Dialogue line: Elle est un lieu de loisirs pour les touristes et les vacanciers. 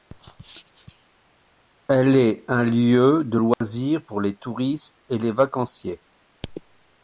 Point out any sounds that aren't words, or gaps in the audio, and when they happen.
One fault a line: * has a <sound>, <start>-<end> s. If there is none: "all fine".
* has a dropout, 3.5-3.6 s